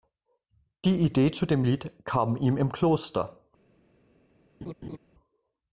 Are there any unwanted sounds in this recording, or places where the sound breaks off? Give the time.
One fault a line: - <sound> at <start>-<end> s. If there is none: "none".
- laugh at 4.6-5.0 s